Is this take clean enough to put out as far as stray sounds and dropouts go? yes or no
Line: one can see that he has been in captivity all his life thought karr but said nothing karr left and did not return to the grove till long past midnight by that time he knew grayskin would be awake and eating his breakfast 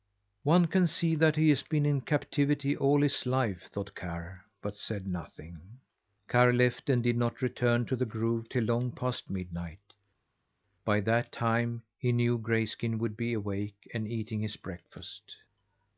yes